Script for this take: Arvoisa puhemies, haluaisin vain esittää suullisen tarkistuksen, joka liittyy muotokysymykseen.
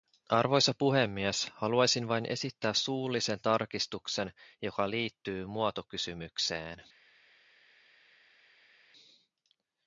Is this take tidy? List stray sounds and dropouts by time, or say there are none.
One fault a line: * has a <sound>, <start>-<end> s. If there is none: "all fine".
all fine